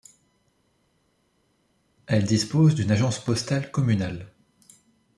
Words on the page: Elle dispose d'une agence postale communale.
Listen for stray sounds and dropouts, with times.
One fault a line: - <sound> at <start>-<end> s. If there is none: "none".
none